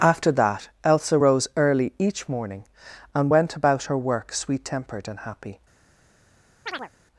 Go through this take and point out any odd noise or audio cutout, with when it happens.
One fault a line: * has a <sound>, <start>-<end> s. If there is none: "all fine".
* has a chirp, 6.7-6.9 s